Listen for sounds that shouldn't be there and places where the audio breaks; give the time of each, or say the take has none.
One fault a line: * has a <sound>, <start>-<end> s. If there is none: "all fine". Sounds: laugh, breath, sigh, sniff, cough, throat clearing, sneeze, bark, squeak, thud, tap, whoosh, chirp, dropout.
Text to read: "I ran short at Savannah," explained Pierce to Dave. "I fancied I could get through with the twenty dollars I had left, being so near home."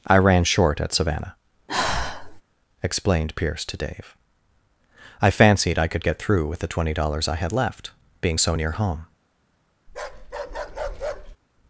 * has a sigh, 1.7-2.4 s
* has a bark, 9.9-11.4 s